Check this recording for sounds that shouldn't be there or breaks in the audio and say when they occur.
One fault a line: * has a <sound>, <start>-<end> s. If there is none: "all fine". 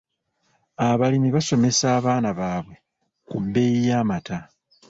all fine